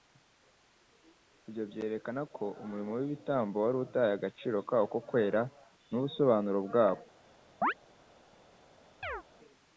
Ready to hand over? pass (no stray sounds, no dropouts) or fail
fail